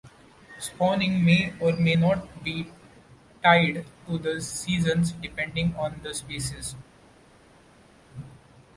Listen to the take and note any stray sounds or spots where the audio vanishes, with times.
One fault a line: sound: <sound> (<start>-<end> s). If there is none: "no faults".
no faults